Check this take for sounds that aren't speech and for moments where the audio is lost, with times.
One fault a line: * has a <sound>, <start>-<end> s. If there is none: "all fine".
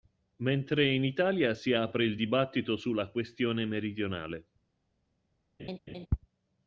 * has a laugh, 5.6-6.1 s